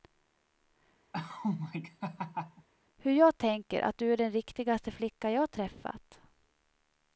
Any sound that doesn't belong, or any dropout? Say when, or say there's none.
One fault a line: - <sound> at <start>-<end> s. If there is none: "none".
- laugh at 1.1-2.7 s